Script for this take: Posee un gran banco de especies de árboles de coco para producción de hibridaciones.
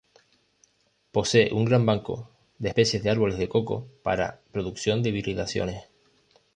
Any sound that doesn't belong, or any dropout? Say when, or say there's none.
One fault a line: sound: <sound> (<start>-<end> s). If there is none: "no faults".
no faults